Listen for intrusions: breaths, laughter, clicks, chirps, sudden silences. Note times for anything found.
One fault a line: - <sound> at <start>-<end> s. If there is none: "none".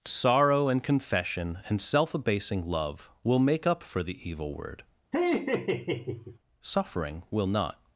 - laugh at 5.1-6.4 s